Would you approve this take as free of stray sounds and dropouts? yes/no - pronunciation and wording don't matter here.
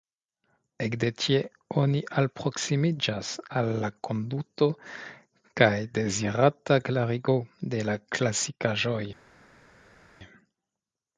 yes